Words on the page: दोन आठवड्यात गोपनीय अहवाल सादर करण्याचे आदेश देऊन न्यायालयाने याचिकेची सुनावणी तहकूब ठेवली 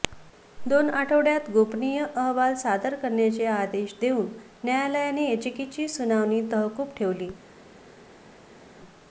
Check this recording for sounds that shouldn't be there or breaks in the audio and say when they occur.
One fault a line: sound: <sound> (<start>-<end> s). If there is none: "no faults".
no faults